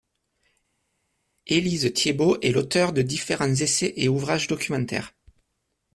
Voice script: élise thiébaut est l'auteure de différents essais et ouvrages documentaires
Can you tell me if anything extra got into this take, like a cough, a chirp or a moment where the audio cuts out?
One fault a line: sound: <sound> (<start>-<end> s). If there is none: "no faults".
no faults